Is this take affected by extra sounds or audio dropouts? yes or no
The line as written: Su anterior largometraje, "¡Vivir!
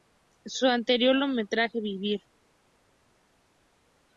no